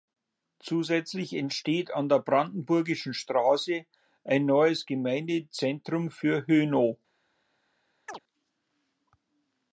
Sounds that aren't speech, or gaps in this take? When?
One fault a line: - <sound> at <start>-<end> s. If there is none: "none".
- chirp at 8.1-8.2 s